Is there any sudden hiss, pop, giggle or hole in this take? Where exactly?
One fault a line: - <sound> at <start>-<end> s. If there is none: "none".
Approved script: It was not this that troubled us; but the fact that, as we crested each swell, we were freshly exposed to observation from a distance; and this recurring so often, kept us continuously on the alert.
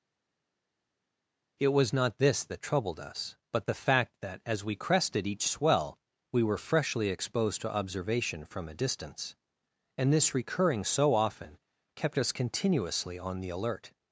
none